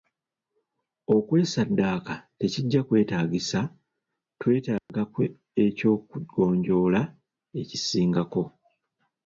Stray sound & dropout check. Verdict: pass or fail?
fail